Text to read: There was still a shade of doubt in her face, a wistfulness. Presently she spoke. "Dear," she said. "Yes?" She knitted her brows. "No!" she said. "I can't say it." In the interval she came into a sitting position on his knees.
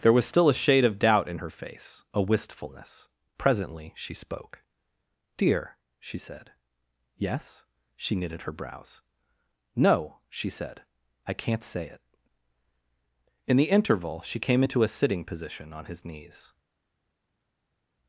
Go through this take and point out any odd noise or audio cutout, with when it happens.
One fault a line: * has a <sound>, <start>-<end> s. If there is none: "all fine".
all fine